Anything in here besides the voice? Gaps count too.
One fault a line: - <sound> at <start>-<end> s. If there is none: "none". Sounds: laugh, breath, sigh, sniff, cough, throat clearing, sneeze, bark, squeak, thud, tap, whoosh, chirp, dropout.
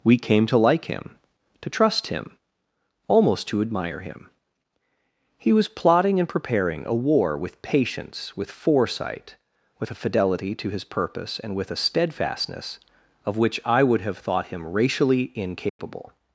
- dropout at 15.7-15.8 s